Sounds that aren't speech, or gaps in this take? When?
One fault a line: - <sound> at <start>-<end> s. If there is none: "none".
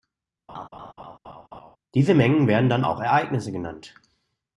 - laugh at 0.5-1.8 s